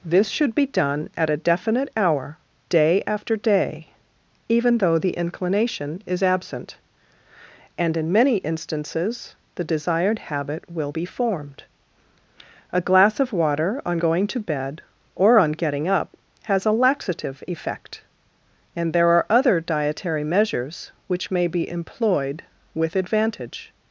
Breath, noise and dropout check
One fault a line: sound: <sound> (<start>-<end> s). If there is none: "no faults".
no faults